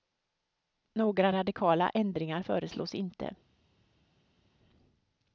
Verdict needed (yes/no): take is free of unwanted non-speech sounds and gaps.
yes